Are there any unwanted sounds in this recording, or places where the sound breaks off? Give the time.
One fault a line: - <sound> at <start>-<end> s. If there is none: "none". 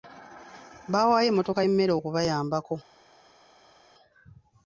none